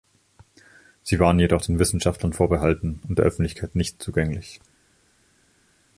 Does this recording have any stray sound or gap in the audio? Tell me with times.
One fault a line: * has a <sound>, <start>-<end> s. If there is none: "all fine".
all fine